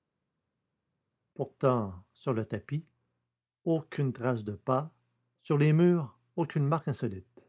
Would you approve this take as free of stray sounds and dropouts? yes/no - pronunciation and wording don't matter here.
yes